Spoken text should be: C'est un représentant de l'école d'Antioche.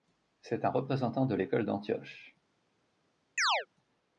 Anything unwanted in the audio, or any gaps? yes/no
yes